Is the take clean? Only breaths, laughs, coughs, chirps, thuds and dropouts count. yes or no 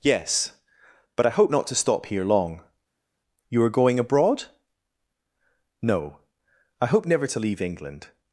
yes